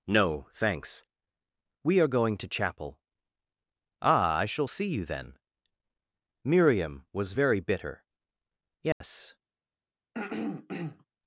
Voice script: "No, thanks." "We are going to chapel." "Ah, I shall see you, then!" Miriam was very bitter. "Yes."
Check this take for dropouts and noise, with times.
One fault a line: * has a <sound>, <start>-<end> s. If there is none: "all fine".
* has a dropout, 8.9-9.0 s
* has a throat clearing, 10.1-11.1 s